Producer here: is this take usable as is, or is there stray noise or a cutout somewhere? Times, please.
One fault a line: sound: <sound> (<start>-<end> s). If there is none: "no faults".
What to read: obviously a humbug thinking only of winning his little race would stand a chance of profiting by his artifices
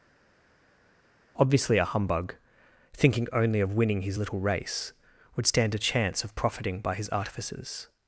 no faults